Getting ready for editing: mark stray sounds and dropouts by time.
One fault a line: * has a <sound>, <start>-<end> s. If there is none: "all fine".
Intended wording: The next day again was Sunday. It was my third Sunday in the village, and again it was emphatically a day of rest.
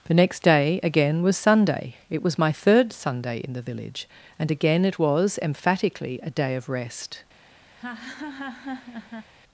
* has a laugh, 7.8-9.3 s